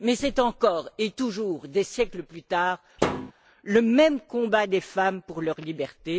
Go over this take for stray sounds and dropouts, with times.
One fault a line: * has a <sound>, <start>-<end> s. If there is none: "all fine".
* has a thud, 3.0-3.3 s